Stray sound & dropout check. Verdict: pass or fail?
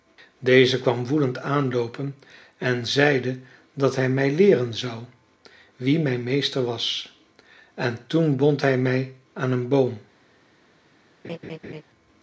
fail